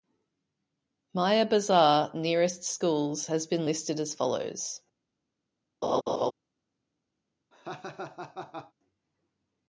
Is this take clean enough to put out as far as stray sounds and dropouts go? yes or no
no